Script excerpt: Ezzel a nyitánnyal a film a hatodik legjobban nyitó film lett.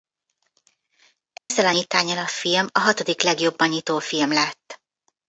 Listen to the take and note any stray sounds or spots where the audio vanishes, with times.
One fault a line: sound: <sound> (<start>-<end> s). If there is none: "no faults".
sound: dropout (1.4-1.5 s)